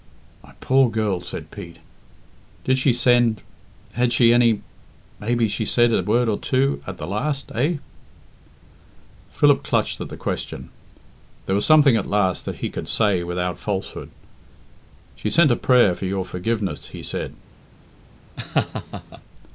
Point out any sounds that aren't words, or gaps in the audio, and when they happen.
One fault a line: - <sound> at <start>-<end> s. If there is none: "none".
- laugh at 18.4-19.2 s